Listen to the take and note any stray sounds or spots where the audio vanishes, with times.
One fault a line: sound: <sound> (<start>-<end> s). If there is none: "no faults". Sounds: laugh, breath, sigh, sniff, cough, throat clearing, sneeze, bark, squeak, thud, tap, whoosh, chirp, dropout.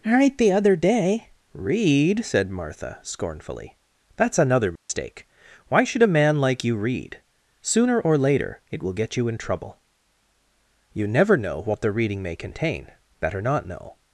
sound: dropout (4.8-4.9 s)